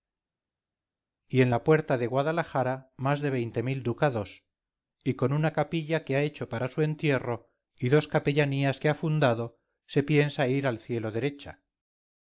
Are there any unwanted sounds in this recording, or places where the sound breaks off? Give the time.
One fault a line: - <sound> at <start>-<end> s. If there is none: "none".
none